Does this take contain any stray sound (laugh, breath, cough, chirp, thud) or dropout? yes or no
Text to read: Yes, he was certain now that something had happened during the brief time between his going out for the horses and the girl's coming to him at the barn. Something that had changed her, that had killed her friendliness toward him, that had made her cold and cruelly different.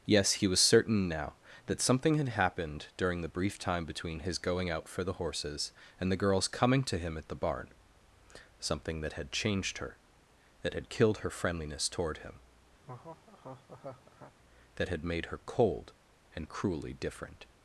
yes